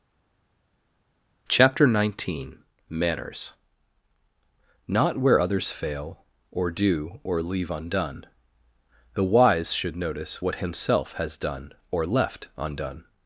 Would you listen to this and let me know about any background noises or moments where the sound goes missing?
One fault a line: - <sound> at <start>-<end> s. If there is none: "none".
none